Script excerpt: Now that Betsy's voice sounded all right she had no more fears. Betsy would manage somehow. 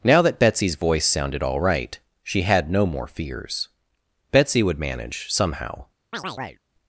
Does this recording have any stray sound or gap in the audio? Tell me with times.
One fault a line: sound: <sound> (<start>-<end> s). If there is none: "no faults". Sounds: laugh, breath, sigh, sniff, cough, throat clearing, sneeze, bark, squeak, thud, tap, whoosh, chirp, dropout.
sound: chirp (6.1-6.6 s)